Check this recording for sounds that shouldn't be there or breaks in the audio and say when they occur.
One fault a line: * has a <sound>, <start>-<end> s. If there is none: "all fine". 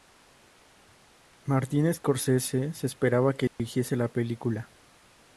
* has a dropout, 3.5-3.6 s